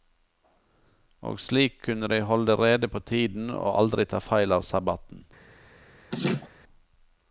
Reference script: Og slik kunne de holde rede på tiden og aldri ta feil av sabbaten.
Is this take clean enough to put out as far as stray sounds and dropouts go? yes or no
no